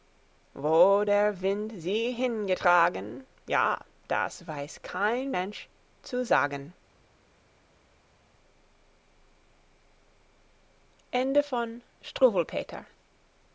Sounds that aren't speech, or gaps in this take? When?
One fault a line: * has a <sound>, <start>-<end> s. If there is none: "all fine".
all fine